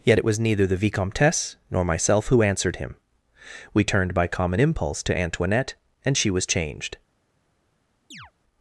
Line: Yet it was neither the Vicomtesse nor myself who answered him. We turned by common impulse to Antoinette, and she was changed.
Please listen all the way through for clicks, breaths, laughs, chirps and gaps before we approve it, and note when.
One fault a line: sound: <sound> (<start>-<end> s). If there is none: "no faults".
sound: chirp (8.1-8.3 s)